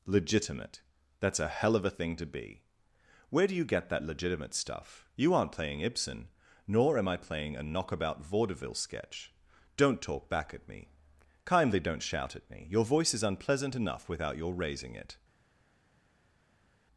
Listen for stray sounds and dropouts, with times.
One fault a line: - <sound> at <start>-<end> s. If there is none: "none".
none